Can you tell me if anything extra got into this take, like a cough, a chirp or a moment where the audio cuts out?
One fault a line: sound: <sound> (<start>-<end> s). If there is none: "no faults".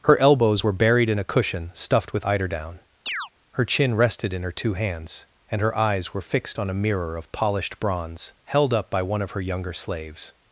sound: chirp (3.1-3.3 s)